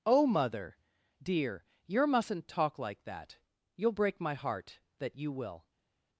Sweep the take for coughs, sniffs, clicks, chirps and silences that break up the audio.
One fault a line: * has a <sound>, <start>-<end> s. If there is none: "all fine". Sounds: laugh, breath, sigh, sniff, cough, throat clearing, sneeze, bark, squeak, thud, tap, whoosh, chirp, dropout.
all fine